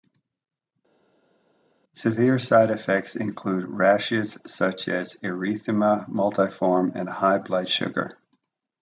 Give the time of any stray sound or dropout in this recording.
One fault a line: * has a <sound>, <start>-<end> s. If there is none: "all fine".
all fine